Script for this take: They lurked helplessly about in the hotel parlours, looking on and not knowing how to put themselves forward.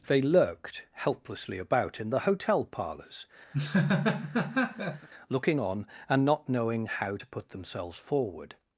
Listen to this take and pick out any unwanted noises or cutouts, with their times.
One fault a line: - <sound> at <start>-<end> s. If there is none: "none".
- laugh at 3.5-5.1 s